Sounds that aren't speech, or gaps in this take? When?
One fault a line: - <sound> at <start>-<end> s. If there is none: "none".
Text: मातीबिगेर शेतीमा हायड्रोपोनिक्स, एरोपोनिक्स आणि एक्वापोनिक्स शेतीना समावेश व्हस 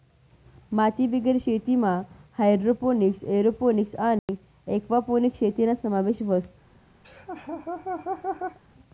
- dropout at 4.2-4.3 s
- laugh at 7.0-8.6 s